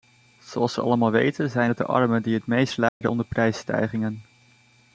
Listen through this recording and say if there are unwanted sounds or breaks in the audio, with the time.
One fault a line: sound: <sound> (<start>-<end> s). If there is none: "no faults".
sound: dropout (2.9-3.0 s)